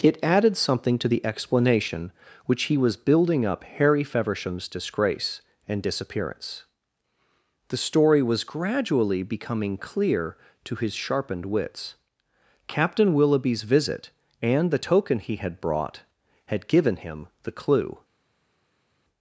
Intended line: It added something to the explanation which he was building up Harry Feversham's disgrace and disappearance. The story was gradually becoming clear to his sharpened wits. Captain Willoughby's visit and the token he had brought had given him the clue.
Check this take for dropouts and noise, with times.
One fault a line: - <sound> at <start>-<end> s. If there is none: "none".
none